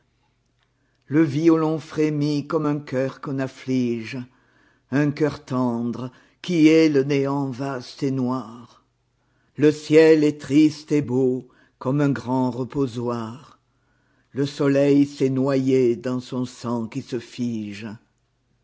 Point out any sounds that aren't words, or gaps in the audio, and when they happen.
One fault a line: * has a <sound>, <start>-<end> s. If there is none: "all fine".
all fine